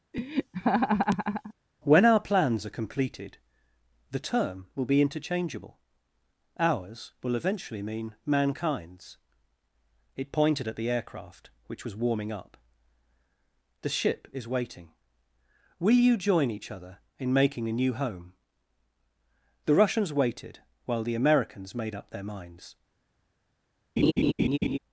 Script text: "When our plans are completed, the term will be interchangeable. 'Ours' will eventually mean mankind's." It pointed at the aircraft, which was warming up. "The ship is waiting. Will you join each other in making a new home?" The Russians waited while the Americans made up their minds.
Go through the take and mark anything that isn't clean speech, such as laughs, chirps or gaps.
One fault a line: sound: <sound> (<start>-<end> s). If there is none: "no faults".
sound: laugh (0.1-1.5 s)
sound: laugh (24.0-24.8 s)